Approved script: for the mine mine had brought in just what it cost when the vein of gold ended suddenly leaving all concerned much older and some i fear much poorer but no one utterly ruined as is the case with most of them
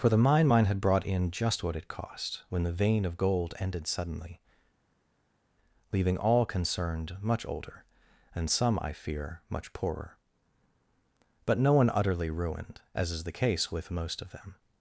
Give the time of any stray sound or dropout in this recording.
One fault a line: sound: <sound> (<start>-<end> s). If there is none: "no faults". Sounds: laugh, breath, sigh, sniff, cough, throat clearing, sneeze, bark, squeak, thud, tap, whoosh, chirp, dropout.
no faults